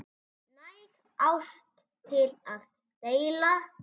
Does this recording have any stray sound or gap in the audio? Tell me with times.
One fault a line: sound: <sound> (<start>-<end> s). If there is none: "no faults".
no faults